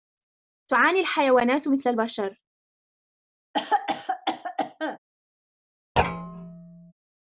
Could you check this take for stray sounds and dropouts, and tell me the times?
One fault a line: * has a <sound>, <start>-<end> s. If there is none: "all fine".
* has a cough, 3.5-5.0 s
* has a thud, 6.0-6.9 s